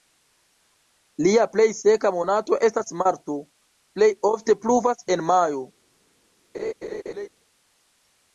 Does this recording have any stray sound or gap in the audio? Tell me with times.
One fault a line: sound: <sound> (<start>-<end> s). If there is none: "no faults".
sound: laugh (6.5-7.3 s)